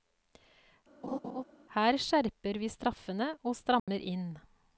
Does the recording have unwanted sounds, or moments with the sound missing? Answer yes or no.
yes